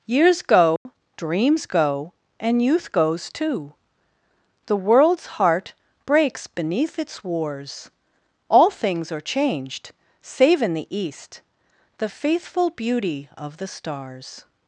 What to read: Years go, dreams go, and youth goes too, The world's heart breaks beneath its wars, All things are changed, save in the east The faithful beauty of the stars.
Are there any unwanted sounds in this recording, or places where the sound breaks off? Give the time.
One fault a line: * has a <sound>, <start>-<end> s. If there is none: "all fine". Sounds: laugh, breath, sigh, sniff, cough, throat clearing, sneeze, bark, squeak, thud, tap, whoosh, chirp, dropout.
* has a dropout, 0.8-0.9 s